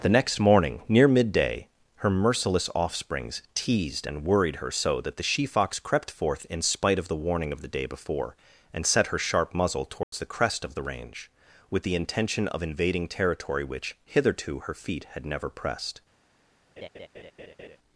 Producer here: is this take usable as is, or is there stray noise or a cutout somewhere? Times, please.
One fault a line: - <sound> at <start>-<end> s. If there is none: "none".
- dropout at 10.0-10.1 s
- laugh at 16.8-17.8 s